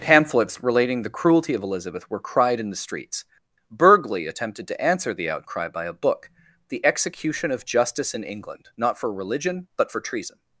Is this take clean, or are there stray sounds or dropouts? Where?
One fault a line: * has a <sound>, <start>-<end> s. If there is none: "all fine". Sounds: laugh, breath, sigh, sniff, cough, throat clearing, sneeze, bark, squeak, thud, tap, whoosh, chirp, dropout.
all fine